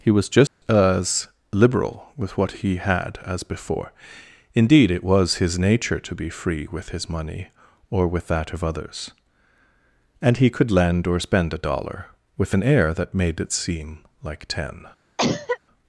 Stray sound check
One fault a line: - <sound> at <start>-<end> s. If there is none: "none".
- dropout at 0.5-0.6 s
- cough at 15.2-15.6 s